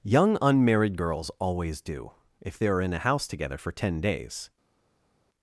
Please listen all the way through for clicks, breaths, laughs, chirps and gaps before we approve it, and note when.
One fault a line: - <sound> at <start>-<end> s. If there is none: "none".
none